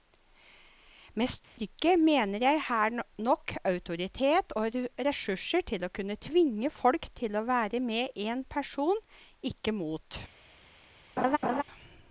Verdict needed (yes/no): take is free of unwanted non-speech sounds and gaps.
no